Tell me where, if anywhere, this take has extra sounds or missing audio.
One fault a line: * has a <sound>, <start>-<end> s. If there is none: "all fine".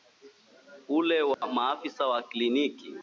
* has a dropout, 1.3-1.4 s